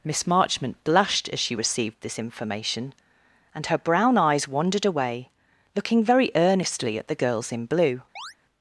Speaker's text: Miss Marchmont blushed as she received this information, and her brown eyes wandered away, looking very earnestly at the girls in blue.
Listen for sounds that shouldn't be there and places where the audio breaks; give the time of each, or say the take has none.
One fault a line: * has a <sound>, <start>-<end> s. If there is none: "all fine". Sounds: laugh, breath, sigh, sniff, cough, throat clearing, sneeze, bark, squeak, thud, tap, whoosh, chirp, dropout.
* has a chirp, 8.2-8.3 s